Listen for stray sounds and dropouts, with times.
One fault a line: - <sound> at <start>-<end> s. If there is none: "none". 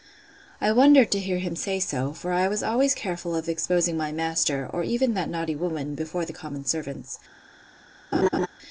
- laugh at 8.1-8.5 s